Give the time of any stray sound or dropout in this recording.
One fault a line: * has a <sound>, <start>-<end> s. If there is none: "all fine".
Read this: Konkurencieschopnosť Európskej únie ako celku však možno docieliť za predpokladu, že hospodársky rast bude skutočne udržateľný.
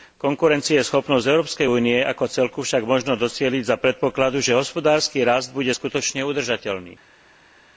all fine